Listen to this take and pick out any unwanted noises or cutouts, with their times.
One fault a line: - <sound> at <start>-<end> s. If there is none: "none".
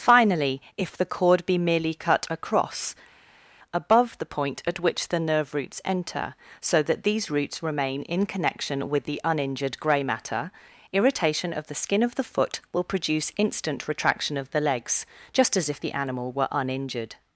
none